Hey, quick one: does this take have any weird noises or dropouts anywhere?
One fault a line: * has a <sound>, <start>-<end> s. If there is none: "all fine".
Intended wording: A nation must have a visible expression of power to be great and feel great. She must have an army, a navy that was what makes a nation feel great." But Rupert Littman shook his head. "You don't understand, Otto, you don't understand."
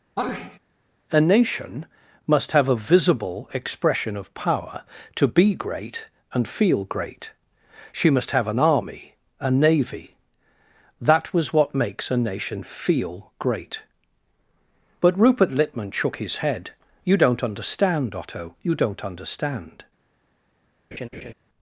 * has a sneeze, 0.2-0.6 s
* has a laugh, 20.9-21.3 s